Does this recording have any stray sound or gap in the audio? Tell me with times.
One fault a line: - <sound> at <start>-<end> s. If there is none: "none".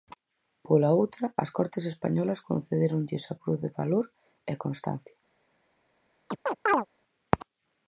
- chirp at 6.3-6.9 s